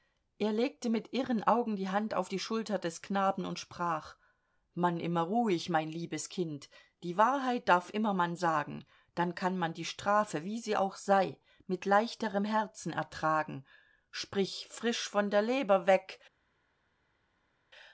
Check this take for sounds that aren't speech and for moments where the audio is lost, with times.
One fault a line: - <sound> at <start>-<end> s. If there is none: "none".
none